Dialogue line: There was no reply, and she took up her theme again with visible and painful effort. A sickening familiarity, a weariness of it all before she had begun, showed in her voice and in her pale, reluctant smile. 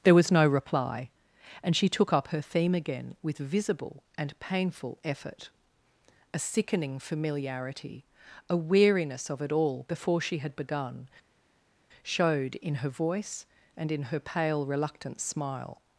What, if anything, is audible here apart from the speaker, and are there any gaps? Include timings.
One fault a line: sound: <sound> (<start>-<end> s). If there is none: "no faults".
no faults